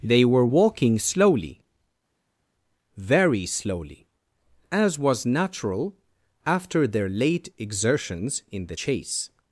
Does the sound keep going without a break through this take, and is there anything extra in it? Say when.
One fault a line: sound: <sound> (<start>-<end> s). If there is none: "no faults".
no faults